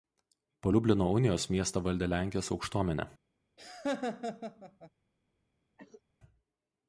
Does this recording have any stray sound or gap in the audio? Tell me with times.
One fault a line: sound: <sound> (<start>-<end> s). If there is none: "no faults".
sound: laugh (3.6-4.9 s)
sound: cough (5.8-6.0 s)